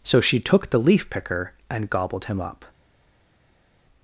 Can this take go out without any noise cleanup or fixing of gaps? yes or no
yes